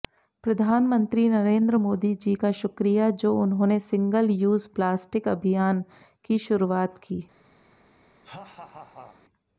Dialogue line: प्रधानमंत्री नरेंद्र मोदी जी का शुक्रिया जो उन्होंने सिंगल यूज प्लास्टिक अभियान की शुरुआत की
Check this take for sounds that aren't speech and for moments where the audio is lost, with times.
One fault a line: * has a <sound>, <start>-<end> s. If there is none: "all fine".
* has a laugh, 8.2-9.2 s